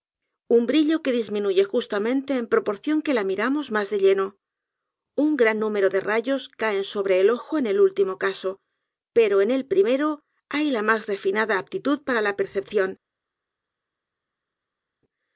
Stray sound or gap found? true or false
false